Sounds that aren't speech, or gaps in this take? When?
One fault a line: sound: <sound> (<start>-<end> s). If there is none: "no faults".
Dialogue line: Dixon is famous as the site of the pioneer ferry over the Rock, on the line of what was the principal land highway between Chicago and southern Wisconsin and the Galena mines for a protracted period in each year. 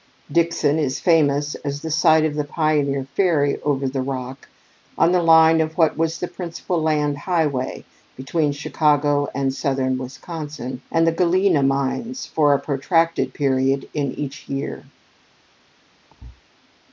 sound: thud (16.1-16.4 s)